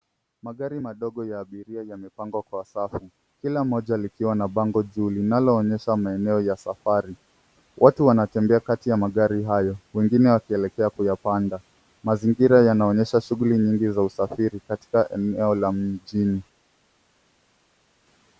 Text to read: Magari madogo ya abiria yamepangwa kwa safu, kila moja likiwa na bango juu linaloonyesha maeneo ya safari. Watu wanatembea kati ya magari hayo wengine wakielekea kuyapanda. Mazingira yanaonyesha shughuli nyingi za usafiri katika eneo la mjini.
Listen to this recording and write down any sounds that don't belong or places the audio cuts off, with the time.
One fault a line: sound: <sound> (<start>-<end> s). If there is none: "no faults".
no faults